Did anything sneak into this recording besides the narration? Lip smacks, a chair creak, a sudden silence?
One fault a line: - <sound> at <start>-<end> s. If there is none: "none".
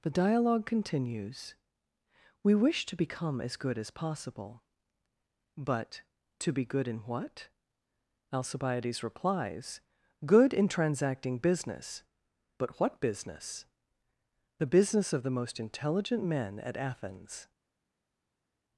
none